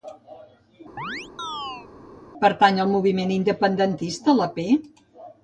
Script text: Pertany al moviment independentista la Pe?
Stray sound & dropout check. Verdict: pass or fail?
fail